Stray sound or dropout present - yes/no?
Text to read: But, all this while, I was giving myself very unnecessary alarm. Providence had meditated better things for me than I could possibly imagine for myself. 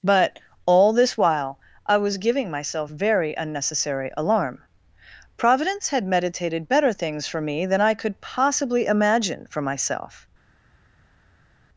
no